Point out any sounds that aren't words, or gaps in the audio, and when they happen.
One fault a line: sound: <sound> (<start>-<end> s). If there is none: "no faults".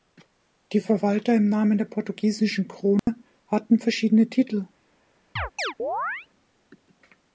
sound: dropout (3.0-3.1 s)
sound: chirp (5.4-6.3 s)